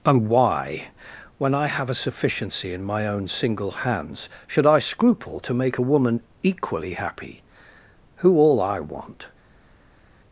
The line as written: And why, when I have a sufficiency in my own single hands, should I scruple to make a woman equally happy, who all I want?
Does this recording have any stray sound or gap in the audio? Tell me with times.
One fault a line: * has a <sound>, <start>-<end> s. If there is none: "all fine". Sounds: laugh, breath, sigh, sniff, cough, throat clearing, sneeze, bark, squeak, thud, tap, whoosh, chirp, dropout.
all fine